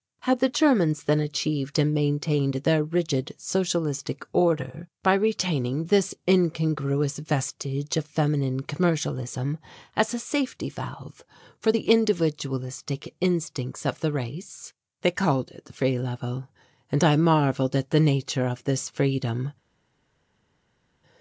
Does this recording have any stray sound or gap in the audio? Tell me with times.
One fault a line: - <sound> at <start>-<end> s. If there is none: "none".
none